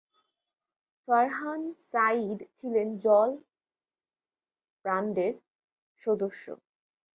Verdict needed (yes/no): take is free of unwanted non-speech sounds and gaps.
yes